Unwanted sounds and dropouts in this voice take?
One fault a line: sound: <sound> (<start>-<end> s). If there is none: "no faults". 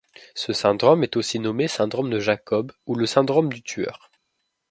no faults